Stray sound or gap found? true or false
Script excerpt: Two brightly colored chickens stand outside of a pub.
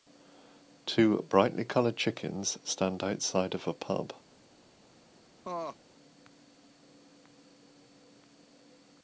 true